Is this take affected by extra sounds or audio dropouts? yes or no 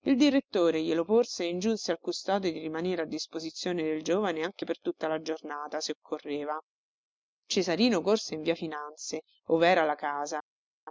no